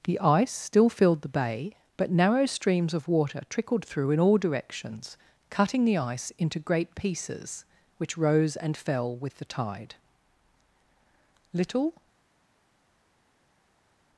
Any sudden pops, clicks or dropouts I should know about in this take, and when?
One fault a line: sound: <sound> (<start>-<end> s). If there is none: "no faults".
no faults